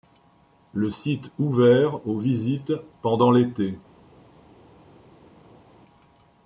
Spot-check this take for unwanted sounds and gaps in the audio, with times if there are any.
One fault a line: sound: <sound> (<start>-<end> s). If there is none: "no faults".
no faults